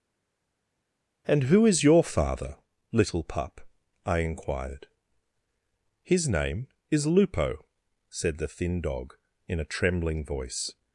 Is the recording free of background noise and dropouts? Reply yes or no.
yes